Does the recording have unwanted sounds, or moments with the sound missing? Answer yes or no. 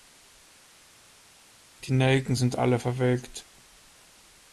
no